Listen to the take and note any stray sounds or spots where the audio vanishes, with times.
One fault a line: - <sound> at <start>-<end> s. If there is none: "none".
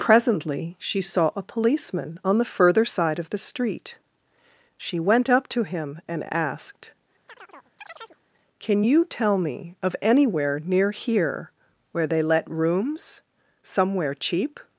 - chirp at 7.3-8.2 s